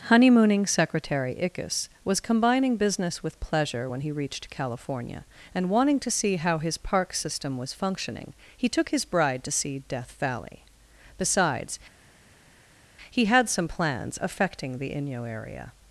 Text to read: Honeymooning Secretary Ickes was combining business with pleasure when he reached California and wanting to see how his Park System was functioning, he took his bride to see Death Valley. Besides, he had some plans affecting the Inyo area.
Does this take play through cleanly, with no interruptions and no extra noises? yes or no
yes